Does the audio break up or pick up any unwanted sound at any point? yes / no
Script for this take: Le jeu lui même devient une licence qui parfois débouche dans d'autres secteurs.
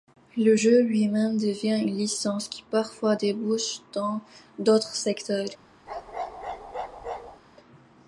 yes